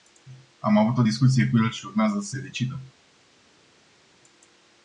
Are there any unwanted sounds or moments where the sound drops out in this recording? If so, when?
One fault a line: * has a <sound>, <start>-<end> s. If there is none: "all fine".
all fine